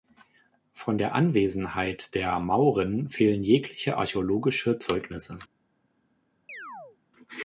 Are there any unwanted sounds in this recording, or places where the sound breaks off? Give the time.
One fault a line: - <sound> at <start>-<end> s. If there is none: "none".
- chirp at 6.5-7.0 s